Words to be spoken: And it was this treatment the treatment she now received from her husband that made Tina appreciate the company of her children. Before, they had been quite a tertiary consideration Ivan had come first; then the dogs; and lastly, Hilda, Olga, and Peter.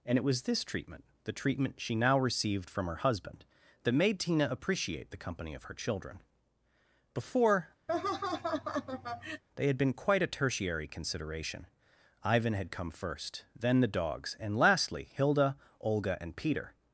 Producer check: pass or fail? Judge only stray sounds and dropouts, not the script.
fail